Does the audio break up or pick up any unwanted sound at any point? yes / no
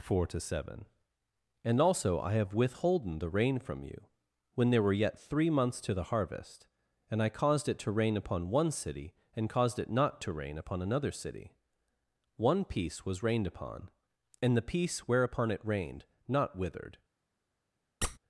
yes